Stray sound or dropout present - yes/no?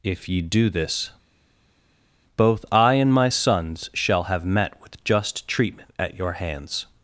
no